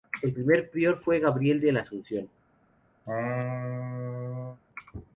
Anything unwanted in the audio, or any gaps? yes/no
yes